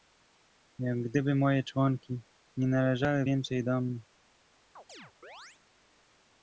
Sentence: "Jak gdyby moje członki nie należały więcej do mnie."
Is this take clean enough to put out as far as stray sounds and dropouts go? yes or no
no